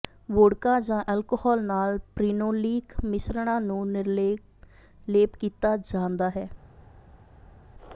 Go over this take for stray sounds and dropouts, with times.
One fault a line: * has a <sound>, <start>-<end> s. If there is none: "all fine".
all fine